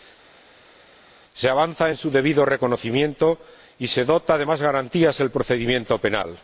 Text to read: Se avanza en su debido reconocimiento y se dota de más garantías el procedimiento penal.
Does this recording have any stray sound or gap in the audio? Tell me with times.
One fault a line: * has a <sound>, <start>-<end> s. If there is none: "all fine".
all fine